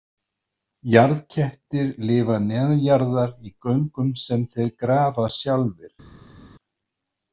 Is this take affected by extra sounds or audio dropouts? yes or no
no